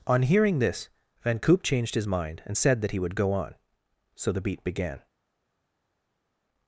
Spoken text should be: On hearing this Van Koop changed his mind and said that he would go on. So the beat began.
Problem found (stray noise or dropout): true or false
false